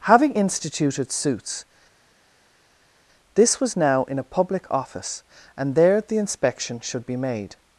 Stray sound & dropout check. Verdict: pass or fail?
pass